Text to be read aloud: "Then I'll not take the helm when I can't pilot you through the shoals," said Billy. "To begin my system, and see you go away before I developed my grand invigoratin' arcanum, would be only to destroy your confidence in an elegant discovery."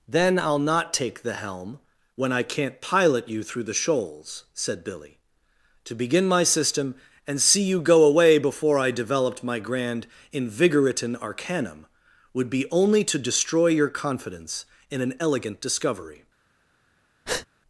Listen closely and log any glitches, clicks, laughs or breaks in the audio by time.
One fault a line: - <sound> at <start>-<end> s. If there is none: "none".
- breath at 17.3-17.5 s